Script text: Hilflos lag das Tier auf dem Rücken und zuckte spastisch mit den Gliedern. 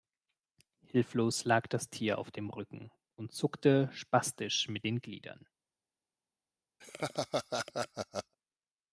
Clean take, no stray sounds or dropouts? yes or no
no